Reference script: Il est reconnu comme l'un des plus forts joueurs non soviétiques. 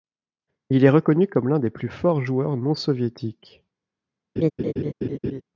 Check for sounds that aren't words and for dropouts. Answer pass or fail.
fail